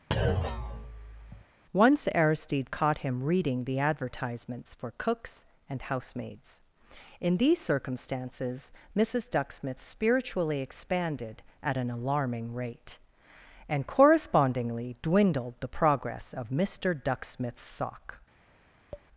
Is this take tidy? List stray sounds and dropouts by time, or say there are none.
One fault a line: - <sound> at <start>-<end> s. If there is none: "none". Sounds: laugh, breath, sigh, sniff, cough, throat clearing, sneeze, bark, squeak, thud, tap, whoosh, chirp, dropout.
- thud at 0.1-1.5 s
- tap at 18.9-19.1 s